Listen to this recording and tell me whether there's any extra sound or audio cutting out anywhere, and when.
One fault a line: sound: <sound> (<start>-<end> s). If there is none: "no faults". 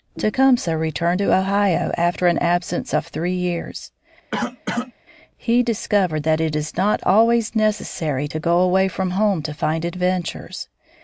sound: cough (4.3-4.9 s)